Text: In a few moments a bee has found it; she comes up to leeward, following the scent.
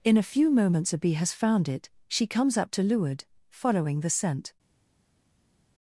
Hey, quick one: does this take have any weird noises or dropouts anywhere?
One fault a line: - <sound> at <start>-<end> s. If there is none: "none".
none